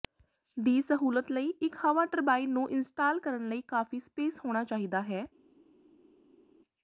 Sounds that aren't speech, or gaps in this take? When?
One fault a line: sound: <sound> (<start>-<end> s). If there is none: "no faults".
no faults